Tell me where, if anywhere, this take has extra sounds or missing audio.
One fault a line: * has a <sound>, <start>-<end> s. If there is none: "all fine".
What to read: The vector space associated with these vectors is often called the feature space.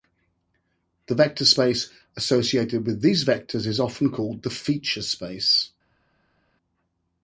all fine